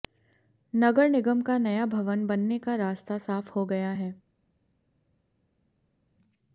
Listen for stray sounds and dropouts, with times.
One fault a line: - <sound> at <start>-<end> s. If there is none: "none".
none